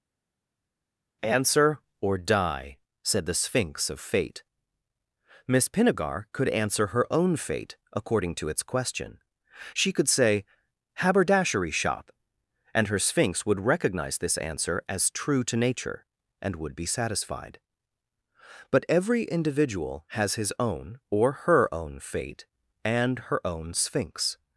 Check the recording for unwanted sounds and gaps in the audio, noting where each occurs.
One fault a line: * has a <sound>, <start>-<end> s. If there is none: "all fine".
all fine